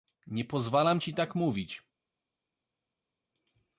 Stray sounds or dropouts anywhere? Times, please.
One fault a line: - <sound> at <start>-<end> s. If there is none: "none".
none